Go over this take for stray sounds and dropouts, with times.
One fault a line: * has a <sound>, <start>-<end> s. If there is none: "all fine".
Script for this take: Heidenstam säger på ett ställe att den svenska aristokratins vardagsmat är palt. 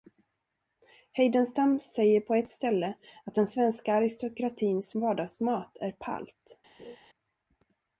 * has a laugh, 6.8-7.0 s